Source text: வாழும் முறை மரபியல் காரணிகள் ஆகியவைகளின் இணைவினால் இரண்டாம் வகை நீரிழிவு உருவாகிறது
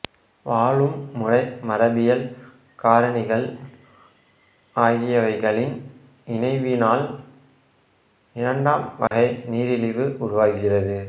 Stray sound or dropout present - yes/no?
yes